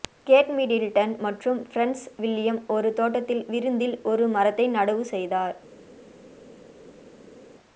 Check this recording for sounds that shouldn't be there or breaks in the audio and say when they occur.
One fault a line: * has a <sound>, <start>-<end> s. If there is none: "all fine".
all fine